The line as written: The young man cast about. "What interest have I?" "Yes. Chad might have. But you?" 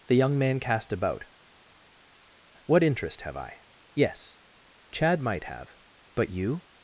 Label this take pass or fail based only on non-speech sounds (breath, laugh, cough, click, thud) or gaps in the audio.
pass